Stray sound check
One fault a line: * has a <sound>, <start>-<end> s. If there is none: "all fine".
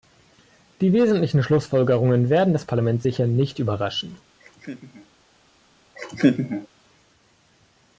* has a laugh, 4.4-5.1 s
* has a laugh, 6.0-6.7 s